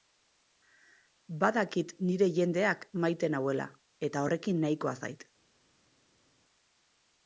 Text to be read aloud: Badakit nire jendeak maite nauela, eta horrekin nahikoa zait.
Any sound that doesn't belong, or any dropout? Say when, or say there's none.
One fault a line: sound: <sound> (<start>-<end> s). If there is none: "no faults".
no faults